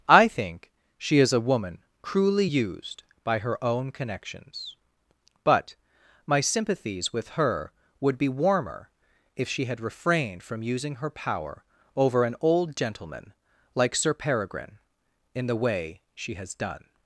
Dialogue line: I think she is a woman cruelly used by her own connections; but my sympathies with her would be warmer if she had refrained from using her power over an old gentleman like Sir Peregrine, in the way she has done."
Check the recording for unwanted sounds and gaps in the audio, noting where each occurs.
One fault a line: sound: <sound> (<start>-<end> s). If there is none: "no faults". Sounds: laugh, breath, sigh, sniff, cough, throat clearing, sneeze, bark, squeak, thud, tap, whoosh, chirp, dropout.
no faults